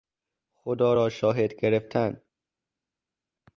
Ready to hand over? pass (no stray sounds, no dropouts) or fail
pass